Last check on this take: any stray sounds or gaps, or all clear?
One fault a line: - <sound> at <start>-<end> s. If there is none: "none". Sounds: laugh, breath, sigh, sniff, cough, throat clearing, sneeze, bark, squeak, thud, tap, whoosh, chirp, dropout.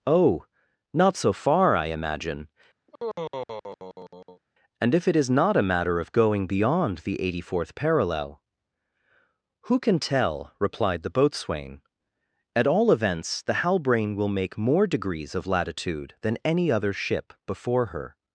- sigh at 2.9-4.4 s